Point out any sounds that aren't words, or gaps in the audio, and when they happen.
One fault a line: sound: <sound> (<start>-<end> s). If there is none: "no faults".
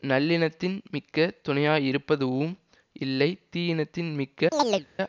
sound: chirp (4.5-4.9 s)